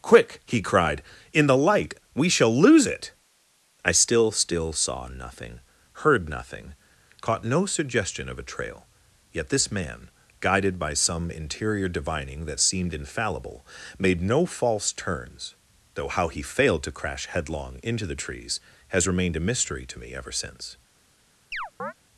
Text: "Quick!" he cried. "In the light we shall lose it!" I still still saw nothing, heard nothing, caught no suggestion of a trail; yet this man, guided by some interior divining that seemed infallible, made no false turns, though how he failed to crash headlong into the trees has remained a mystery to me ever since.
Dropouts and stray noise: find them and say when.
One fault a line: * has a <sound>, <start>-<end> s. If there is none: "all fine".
* has a chirp, 21.5-21.9 s